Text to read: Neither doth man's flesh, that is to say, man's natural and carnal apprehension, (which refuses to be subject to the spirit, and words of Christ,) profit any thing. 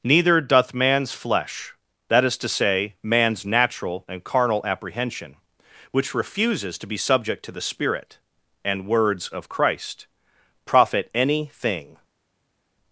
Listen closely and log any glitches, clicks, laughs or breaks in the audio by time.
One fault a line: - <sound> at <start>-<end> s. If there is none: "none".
none